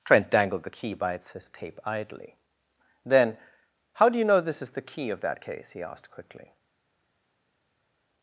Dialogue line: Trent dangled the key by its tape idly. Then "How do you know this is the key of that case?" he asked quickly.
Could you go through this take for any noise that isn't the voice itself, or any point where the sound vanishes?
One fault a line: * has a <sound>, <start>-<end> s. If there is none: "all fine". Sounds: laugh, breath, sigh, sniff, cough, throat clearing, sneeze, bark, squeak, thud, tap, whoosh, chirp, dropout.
all fine